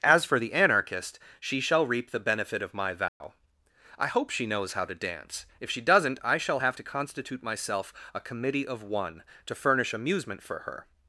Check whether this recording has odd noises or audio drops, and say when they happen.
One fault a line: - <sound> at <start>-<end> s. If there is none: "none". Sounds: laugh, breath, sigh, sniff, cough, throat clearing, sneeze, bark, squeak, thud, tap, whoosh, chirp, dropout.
- dropout at 3.1-3.2 s